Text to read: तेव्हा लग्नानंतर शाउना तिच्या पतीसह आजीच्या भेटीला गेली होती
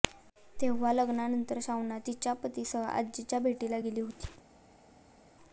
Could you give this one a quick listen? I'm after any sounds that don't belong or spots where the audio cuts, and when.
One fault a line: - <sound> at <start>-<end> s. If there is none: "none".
none